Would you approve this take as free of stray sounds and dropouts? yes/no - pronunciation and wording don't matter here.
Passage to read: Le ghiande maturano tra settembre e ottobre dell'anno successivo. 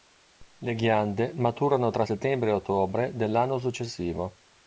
yes